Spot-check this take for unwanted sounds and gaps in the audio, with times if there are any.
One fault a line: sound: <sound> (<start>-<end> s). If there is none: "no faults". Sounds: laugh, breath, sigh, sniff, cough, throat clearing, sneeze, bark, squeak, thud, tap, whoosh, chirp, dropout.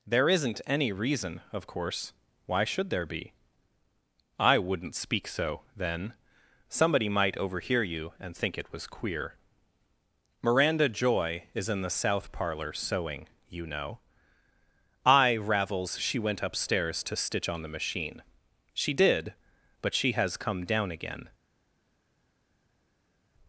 no faults